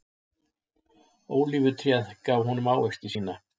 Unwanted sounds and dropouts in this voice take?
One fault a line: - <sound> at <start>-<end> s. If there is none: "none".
none